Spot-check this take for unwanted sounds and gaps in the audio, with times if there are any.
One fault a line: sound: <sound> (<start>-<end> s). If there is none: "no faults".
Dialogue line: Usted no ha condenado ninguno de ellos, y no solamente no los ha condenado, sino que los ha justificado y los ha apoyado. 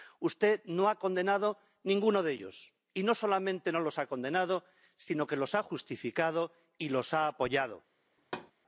sound: thud (8.2-8.5 s)